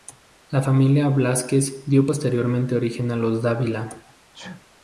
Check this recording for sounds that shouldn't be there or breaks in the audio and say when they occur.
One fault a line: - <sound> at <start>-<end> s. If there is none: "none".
- sneeze at 4.3-4.7 s